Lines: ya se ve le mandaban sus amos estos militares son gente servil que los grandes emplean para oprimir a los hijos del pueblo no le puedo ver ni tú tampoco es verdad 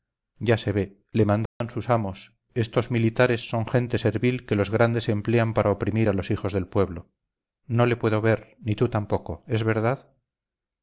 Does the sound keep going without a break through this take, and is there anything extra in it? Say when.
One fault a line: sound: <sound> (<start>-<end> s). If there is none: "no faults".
sound: dropout (1.5-1.6 s)